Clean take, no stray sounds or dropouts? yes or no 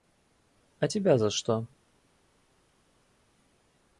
yes